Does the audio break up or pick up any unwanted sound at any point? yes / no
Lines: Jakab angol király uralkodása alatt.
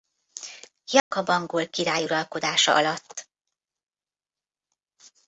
yes